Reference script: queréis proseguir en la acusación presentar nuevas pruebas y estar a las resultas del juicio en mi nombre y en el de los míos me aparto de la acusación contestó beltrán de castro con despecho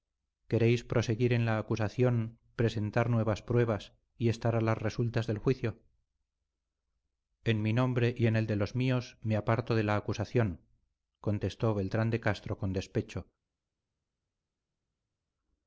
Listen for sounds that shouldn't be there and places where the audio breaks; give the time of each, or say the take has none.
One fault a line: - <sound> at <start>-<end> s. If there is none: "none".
none